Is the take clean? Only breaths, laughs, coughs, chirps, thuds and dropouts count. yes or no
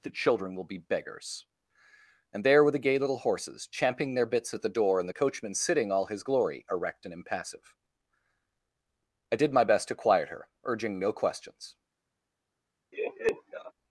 no